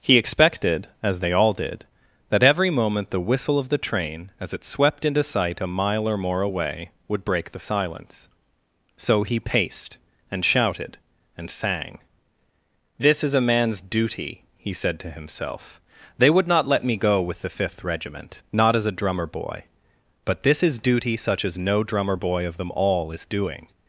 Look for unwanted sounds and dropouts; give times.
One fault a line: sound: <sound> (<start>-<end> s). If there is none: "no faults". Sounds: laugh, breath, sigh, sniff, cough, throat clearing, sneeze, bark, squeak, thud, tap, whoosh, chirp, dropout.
no faults